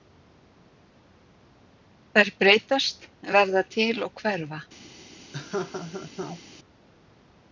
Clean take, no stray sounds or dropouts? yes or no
no